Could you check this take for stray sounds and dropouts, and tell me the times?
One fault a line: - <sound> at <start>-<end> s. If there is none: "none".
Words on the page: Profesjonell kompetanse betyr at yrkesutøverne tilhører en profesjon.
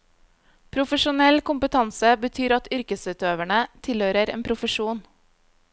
none